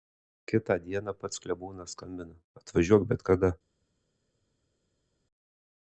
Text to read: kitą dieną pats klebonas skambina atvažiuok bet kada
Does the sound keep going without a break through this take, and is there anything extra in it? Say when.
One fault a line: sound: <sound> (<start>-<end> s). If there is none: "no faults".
no faults